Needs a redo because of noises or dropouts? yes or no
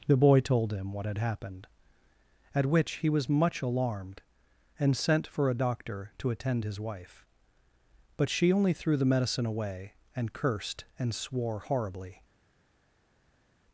no